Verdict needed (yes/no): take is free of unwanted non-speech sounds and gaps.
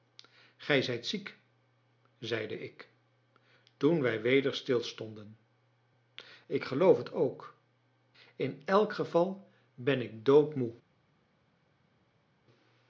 yes